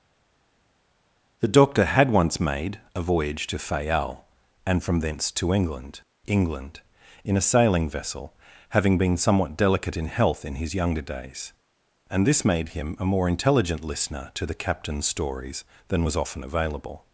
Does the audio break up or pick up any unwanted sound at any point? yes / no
no